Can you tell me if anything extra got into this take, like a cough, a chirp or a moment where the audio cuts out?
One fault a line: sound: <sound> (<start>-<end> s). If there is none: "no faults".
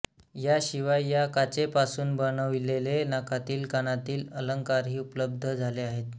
no faults